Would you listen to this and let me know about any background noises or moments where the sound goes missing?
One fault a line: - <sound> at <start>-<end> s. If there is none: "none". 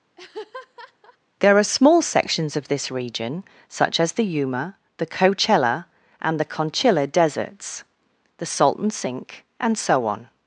- laugh at 0.2-1.2 s